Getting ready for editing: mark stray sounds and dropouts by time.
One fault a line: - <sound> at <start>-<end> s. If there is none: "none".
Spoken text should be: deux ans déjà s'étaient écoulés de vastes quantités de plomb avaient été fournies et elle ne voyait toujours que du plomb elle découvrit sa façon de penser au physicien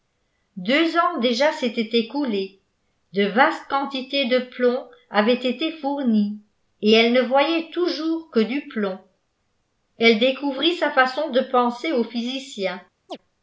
- chirp at 13.1-13.2 s